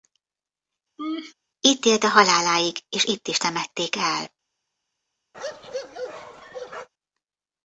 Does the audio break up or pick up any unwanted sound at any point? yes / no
yes